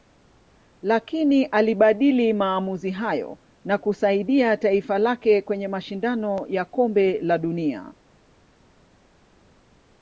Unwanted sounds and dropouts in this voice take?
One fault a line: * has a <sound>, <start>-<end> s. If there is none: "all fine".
all fine